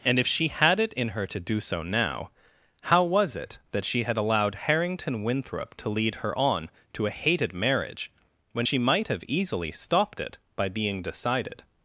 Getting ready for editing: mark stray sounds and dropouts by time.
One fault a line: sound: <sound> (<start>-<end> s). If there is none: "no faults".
no faults